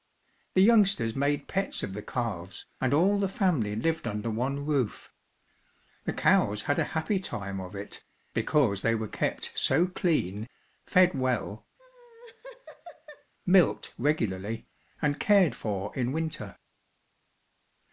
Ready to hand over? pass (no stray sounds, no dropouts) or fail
fail